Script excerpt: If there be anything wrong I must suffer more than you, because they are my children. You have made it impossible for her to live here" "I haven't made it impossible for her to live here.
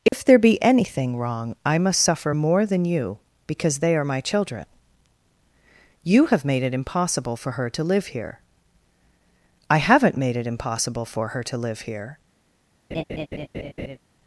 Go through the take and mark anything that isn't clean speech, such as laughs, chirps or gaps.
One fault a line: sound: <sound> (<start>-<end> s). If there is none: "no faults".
sound: dropout (0.1-0.1 s)
sound: laugh (12.9-14.0 s)